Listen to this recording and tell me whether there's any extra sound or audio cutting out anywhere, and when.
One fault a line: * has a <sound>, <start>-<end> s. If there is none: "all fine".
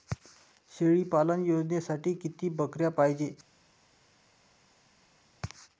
all fine